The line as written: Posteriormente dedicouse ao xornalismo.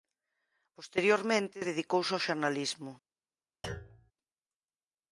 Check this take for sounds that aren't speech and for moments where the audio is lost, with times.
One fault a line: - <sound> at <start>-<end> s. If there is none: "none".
- thud at 3.6-4.1 s